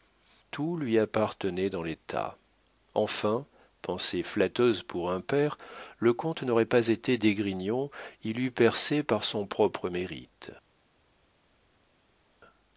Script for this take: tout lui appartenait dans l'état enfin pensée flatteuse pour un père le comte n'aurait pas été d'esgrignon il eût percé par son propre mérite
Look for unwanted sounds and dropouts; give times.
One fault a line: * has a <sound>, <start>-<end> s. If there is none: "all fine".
all fine